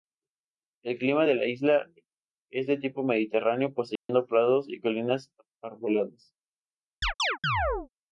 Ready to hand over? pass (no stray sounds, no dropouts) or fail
fail